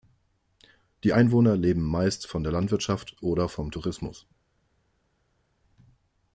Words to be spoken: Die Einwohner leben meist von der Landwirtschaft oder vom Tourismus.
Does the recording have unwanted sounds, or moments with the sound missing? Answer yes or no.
no